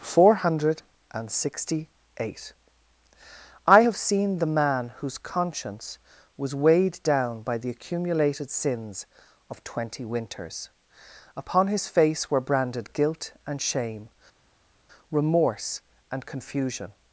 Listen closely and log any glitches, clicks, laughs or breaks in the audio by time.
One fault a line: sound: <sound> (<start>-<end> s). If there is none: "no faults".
no faults